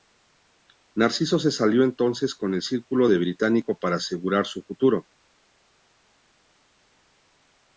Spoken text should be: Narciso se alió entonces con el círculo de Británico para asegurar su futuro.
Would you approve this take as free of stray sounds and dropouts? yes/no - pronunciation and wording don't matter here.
yes